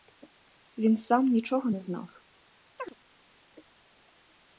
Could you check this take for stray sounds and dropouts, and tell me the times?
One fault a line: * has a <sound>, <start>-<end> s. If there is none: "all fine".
* has a chirp, 2.8-2.9 s